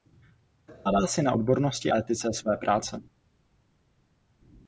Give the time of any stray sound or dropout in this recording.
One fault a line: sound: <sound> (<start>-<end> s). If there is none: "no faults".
no faults